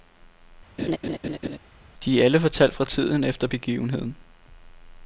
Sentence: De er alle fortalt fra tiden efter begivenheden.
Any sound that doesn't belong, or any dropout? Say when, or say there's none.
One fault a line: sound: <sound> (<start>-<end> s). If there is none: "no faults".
sound: laugh (0.8-1.6 s)